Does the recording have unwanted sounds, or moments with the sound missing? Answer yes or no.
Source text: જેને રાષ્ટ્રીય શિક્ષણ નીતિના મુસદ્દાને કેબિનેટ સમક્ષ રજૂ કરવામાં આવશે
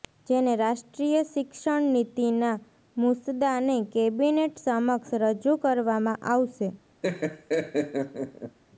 yes